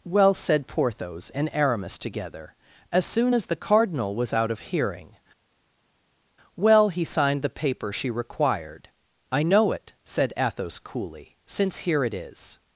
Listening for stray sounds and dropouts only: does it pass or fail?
pass